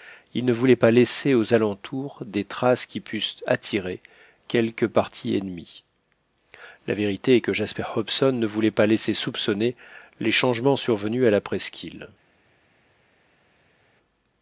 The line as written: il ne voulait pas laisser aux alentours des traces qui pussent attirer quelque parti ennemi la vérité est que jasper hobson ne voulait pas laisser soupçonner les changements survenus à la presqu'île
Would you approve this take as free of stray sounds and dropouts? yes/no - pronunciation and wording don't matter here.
yes